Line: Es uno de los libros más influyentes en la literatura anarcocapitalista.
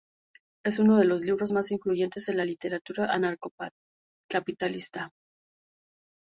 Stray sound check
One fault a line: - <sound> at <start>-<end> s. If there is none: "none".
none